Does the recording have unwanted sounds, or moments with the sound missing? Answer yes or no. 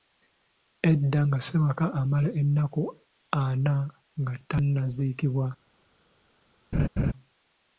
yes